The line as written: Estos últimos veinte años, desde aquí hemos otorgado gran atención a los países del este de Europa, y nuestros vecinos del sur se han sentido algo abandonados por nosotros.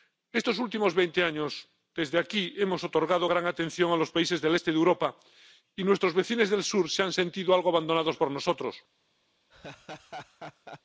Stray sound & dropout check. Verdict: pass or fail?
fail